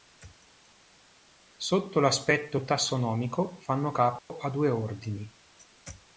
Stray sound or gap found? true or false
true